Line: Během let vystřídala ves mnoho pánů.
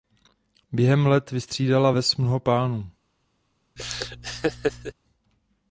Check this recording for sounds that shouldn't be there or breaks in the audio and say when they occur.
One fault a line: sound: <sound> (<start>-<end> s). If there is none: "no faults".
sound: laugh (3.8-4.9 s)